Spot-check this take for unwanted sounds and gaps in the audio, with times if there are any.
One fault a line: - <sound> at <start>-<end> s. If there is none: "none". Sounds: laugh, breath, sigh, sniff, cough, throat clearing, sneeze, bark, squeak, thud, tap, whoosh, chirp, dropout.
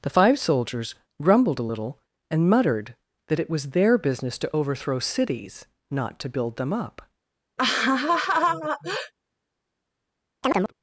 - laugh at 7.6-9.1 s
- chirp at 10.4-10.7 s